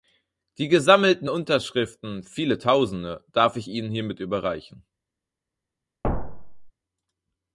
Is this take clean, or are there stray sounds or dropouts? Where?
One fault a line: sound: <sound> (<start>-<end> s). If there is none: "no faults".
sound: thud (6.0-6.7 s)